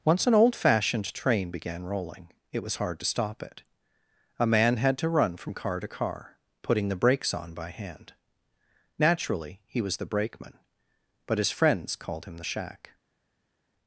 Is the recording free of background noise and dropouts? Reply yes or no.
yes